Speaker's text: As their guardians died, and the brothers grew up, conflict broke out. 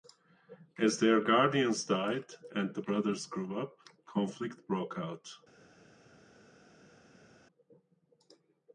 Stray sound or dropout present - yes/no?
no